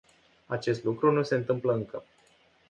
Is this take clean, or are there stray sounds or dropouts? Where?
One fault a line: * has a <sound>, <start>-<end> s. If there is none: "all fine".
all fine